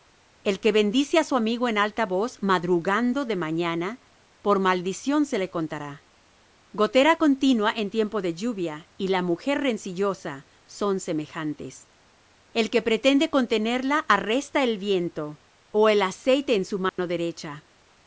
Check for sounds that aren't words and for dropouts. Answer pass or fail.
fail